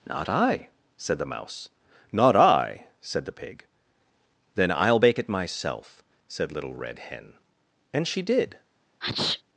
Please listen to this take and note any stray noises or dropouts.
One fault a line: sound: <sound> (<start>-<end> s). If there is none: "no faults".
sound: sneeze (9.0-9.4 s)